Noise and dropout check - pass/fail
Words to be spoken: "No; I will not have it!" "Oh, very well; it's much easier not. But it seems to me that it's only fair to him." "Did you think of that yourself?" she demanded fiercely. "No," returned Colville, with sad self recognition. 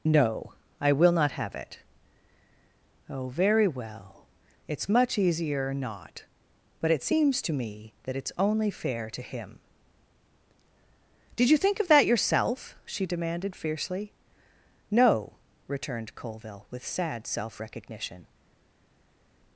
pass